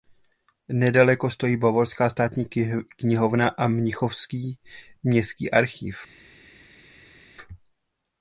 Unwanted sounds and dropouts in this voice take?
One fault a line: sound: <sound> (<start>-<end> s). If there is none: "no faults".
no faults